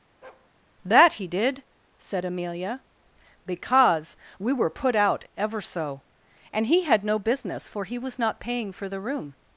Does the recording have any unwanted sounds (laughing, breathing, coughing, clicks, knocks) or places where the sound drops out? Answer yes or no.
yes